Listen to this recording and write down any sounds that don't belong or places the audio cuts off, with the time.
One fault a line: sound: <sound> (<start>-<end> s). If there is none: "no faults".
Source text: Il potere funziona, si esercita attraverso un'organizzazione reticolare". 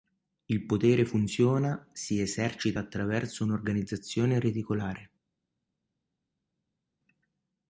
no faults